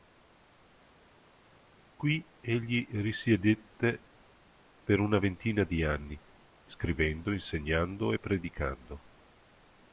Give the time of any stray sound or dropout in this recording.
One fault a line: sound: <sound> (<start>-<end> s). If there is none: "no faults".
no faults